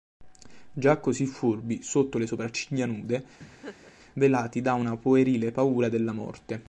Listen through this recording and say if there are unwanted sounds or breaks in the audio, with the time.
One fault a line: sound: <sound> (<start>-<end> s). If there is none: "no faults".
sound: laugh (3.4-3.9 s)